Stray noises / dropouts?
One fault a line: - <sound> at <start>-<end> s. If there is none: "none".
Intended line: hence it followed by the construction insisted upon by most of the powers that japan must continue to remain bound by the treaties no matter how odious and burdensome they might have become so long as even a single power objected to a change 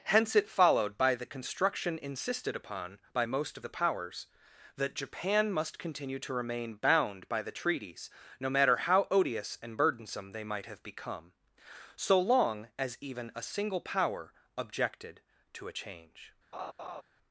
- laugh at 16.5-17.0 s